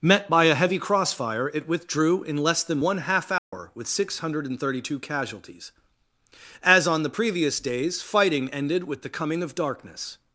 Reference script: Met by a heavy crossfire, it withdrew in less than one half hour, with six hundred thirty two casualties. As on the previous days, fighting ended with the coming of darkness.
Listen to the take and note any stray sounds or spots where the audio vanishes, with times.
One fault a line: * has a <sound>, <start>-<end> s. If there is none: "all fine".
* has a dropout, 3.4-3.5 s